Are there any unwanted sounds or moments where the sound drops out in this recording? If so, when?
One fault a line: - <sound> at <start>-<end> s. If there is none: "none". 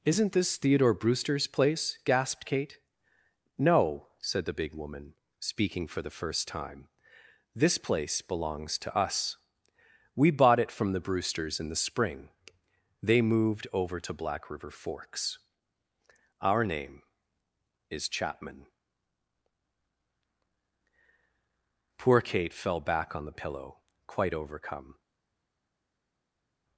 none